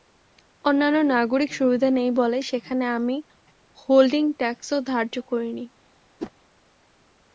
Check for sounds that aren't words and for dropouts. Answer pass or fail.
fail